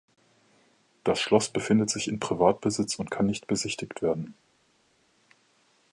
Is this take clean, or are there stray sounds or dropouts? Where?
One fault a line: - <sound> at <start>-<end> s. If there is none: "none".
none